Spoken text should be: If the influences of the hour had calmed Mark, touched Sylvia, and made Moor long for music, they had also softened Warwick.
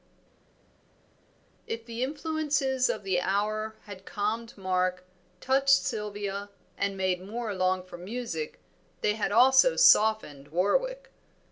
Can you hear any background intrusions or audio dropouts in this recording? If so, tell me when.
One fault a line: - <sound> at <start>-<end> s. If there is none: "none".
none